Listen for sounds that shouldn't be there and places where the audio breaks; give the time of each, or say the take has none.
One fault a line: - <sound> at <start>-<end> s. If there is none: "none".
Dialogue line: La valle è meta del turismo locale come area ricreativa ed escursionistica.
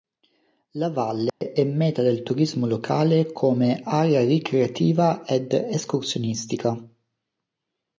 - dropout at 1.3-1.4 s